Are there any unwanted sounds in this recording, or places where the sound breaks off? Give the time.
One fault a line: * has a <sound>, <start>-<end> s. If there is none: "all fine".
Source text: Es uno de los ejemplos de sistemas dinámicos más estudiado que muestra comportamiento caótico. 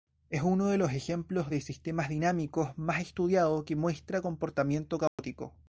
* has a dropout, 5.1-5.2 s